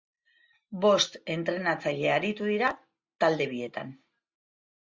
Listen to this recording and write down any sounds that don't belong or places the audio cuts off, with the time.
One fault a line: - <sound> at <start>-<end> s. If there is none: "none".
none